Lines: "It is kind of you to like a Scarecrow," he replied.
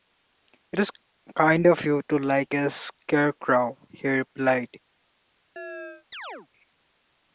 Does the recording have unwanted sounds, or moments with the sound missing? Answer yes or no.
yes